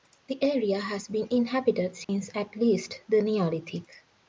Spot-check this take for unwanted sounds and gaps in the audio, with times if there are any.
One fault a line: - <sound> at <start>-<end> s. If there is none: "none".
- dropout at 2.0-2.1 s